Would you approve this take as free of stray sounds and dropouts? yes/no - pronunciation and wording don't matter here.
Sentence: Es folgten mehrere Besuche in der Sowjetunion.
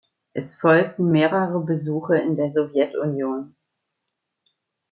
yes